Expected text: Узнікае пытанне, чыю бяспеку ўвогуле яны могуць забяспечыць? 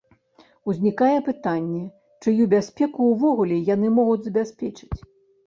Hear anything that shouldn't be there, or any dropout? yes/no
no